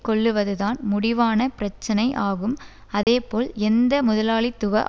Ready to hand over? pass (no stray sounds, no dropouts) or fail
fail